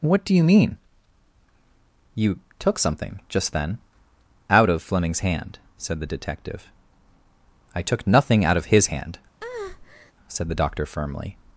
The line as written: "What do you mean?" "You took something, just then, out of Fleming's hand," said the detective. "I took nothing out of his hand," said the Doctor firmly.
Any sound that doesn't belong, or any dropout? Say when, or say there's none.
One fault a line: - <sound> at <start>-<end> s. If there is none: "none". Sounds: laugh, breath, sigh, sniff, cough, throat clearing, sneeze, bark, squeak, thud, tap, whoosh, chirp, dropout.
- breath at 9.4-10.1 s